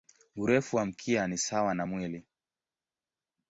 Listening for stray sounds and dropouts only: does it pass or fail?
pass